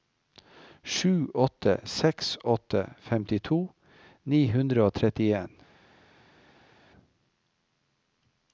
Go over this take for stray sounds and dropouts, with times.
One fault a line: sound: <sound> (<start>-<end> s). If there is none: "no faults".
no faults